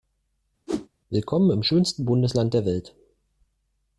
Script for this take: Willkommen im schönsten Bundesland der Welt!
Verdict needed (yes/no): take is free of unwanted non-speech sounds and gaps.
no